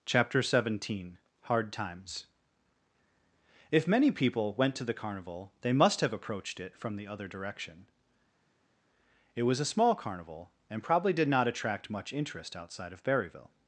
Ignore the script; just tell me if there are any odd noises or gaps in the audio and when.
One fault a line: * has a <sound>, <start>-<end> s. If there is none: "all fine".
all fine